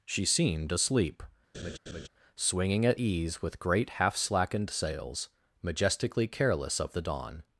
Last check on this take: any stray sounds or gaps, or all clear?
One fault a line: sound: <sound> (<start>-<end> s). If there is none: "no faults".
sound: laugh (1.5-2.1 s)